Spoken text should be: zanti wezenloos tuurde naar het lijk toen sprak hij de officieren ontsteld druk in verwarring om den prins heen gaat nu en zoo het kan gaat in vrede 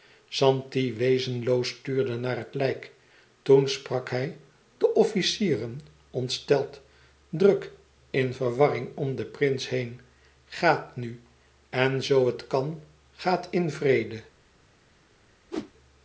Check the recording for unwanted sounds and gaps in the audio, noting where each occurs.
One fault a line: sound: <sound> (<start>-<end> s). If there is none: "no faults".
sound: whoosh (15.5-15.7 s)